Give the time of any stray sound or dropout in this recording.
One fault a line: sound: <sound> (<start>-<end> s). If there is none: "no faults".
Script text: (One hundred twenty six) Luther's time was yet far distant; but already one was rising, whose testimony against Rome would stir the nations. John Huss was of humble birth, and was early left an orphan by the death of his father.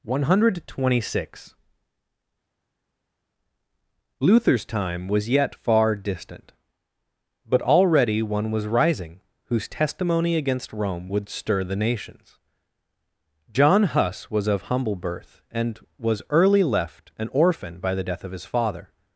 no faults